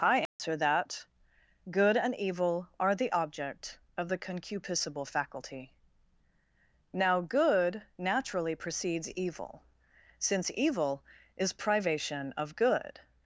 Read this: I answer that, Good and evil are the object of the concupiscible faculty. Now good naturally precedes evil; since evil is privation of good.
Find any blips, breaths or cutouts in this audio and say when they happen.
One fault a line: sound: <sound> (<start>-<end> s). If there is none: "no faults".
sound: dropout (0.3-0.4 s)